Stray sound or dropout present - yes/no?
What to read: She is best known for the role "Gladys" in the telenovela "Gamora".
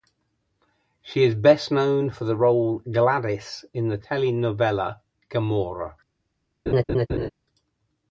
yes